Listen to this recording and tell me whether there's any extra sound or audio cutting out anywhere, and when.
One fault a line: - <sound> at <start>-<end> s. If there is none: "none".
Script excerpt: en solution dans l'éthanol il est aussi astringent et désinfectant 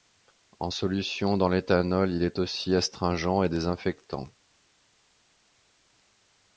none